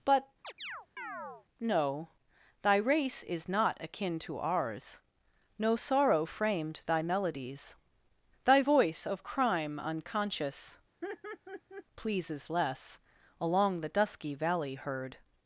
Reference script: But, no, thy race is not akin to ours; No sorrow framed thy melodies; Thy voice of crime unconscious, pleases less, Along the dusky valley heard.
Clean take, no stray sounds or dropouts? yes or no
no